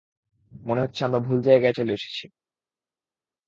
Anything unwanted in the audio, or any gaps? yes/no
no